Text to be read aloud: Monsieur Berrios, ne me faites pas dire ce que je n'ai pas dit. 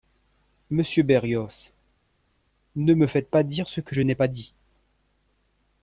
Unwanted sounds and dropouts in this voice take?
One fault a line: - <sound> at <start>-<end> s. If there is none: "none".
none